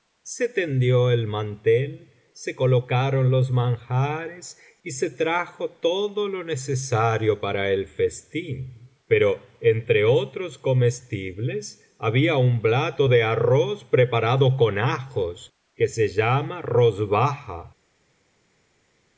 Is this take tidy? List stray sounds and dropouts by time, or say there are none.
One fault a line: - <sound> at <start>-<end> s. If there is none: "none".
none